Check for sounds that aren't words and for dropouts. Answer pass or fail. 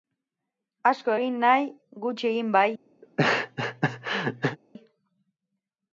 fail